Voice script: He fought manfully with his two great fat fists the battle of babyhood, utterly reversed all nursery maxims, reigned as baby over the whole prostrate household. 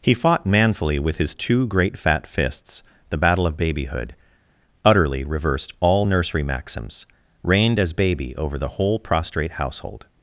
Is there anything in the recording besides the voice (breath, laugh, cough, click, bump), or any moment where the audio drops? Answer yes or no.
no